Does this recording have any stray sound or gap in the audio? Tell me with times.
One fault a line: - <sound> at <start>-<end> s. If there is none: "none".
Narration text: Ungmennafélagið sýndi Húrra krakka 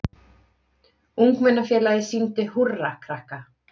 none